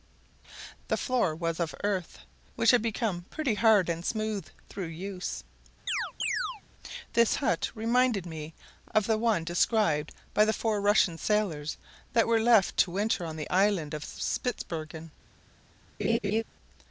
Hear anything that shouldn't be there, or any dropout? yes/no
yes